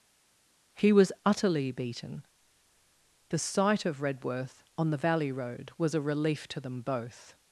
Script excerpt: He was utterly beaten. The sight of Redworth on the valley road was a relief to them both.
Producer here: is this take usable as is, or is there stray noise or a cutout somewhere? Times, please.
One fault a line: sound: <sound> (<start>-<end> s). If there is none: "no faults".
no faults